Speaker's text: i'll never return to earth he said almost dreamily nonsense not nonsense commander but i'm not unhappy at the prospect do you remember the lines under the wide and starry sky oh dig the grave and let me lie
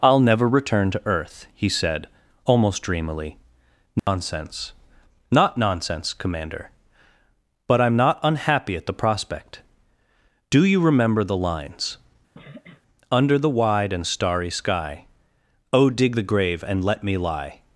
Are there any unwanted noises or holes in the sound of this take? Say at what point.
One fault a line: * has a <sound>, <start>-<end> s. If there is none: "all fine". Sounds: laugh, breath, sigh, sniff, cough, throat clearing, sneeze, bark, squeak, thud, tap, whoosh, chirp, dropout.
* has a dropout, 4.0-4.1 s
* has a sniff, 12.3-12.8 s